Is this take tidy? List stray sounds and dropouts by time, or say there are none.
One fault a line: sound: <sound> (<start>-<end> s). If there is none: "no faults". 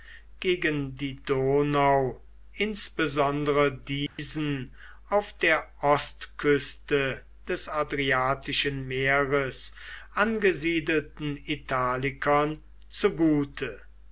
sound: dropout (4.1-4.2 s)